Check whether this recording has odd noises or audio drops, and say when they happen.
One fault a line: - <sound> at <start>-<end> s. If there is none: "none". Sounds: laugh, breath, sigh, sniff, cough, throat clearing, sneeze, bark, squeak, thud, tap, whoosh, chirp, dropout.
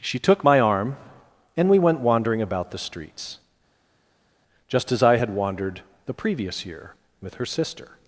none